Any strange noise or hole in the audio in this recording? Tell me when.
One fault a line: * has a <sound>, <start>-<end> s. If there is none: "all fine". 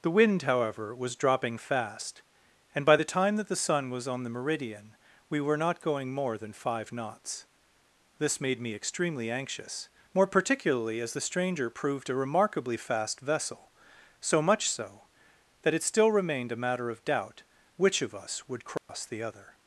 * has a dropout, 18.8-18.9 s